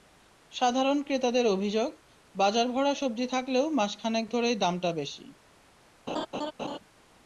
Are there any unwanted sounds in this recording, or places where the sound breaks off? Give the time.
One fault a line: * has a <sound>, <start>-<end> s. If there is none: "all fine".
* has a laugh, 6.1-6.8 s